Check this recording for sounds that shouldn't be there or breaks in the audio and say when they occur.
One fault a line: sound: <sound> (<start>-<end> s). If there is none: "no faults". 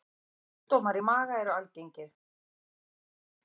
no faults